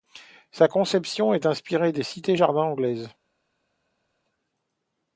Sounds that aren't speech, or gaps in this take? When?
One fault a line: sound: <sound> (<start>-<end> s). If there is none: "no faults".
no faults